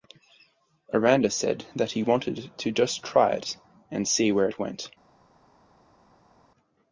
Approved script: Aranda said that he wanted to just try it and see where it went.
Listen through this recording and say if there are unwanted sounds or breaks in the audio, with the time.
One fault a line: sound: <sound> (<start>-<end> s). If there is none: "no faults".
no faults